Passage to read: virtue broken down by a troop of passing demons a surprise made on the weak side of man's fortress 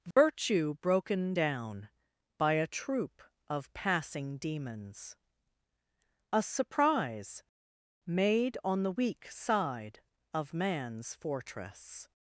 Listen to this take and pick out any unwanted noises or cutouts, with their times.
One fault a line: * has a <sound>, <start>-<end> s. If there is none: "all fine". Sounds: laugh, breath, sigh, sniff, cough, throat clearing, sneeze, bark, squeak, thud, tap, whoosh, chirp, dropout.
* has a dropout, 0.1-0.2 s